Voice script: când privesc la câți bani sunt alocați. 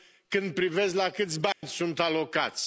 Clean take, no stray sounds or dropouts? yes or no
no